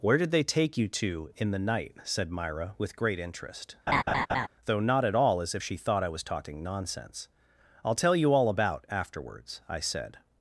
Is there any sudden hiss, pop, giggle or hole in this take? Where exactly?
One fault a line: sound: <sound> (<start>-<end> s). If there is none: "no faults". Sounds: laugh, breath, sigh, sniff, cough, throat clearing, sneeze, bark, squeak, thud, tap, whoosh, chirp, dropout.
sound: laugh (3.9-4.5 s)